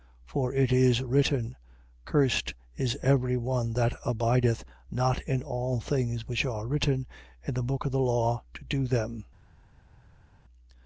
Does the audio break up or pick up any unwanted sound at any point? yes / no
no